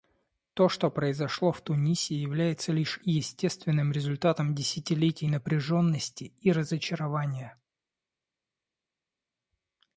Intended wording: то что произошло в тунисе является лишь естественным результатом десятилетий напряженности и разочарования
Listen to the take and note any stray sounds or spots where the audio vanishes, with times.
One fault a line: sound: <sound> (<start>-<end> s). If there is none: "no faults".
no faults